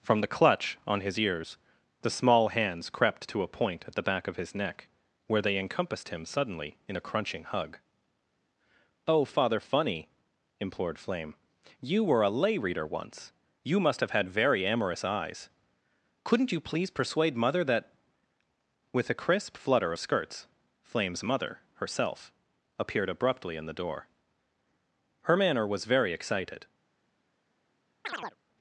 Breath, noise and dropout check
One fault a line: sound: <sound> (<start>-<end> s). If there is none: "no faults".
sound: chirp (28.0-28.4 s)